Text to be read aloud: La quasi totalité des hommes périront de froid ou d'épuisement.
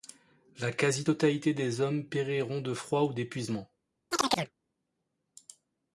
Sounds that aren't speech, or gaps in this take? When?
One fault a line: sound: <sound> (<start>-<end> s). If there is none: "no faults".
sound: chirp (4.1-4.5 s)